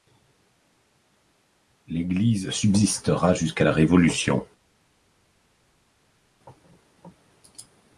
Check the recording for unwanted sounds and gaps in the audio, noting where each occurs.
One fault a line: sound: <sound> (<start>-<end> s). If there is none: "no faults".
no faults